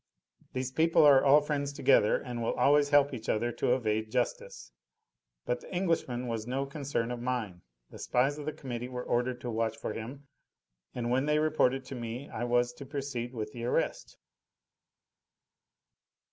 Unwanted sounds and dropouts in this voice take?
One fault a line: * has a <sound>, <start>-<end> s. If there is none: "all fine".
all fine